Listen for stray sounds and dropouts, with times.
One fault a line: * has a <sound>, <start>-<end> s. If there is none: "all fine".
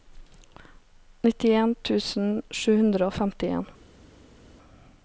all fine